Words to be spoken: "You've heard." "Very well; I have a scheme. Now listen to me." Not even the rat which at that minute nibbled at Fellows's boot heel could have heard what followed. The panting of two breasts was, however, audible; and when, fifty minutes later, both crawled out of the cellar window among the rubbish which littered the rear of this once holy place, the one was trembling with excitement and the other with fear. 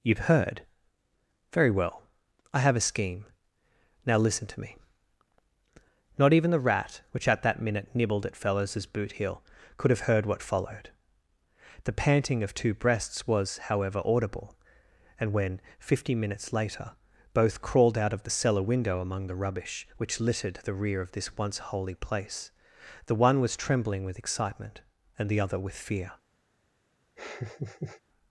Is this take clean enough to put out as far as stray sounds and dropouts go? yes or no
no